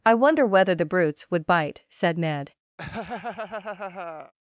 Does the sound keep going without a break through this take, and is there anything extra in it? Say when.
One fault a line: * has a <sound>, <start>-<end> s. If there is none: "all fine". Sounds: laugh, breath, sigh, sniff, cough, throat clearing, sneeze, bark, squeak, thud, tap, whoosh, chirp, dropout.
* has a laugh, 2.8-4.3 s